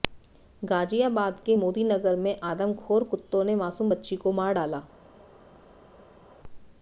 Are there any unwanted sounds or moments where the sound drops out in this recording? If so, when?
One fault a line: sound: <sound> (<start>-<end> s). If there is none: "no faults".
no faults